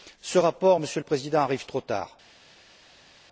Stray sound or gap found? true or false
false